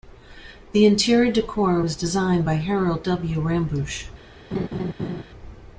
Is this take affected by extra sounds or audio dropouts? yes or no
yes